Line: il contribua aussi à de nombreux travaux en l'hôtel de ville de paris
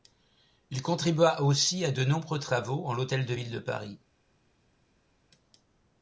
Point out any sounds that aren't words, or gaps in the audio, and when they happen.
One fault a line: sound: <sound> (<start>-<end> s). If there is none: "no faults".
no faults